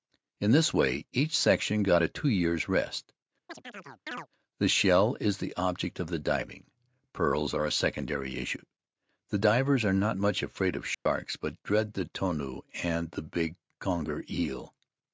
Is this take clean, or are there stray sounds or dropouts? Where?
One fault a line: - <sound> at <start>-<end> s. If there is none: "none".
- chirp at 3.5-4.3 s
- dropout at 10.9-11.1 s